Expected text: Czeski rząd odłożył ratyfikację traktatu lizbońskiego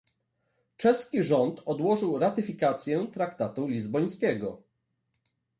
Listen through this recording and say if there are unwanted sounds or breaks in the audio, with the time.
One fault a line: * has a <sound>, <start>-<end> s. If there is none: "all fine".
all fine